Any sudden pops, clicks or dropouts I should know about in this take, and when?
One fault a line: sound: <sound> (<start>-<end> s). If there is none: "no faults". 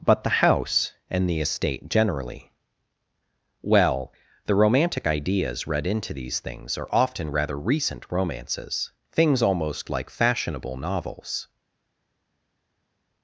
no faults